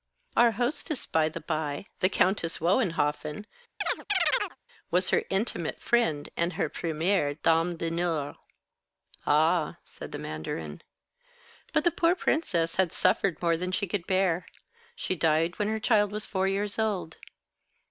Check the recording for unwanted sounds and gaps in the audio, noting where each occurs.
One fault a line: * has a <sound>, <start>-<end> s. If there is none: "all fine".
* has a chirp, 3.8-4.6 s